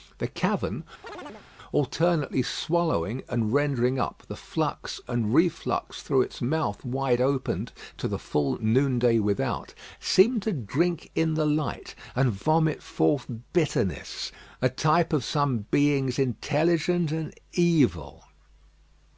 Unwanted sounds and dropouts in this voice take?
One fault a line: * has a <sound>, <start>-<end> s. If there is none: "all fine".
* has a chirp, 1.0-1.5 s